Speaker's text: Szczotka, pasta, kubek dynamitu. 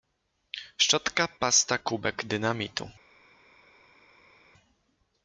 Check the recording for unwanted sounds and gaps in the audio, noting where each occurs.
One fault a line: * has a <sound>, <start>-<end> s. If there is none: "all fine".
all fine